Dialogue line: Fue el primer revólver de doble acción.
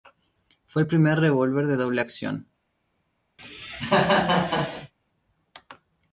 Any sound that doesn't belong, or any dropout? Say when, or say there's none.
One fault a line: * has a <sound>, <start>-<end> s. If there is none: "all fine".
* has a cough, 3.4-4.9 s